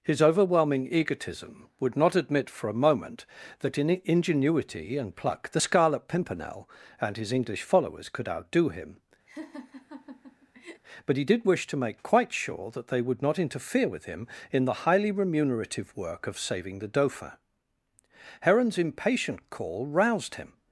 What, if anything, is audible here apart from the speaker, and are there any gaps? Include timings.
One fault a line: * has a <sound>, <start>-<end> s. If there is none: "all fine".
* has a laugh, 9.3-10.8 s